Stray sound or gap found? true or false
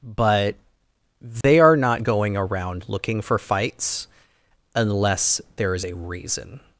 true